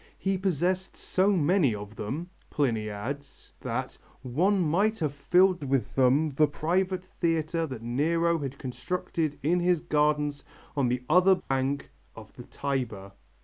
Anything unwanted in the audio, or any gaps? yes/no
yes